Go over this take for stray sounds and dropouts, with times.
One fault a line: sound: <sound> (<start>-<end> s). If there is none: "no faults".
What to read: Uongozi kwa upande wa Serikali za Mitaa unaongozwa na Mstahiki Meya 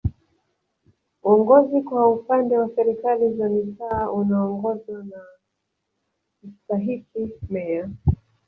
no faults